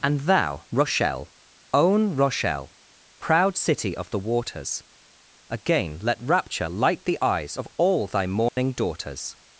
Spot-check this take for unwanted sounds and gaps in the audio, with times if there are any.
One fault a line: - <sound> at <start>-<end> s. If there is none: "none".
- dropout at 8.5-8.6 s